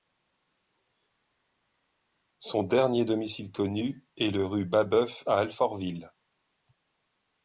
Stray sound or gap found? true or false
false